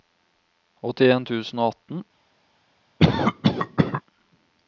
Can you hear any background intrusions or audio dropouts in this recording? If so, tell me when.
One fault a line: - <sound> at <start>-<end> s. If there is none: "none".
- cough at 3.0-4.0 s